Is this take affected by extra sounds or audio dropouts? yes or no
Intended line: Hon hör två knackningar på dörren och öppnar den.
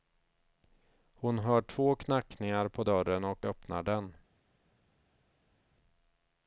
no